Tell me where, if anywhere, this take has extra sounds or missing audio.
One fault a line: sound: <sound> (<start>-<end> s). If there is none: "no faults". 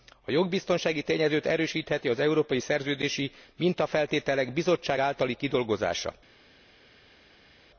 no faults